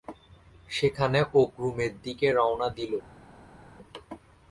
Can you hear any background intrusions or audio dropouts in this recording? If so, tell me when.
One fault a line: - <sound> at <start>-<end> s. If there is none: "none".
none